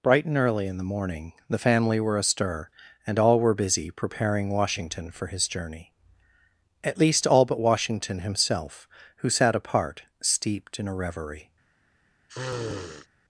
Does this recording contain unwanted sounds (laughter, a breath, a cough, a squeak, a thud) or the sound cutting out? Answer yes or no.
yes